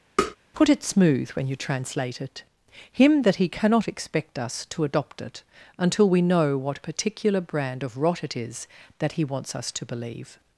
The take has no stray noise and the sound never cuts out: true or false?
false